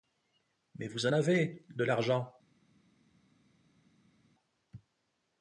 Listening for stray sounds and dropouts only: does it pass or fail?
pass